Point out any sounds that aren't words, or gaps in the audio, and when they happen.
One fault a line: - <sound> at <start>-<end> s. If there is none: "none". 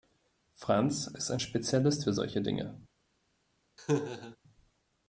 - laugh at 3.8-4.4 s